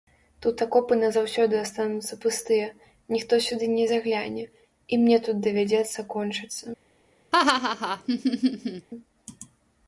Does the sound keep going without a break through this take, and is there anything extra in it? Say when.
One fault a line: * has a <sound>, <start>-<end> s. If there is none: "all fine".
* has a laugh, 7.3-8.9 s